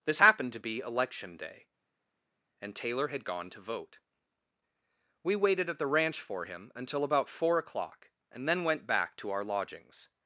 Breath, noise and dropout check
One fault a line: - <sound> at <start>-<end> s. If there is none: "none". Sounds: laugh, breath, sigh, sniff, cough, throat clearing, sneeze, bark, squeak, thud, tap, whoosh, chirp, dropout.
none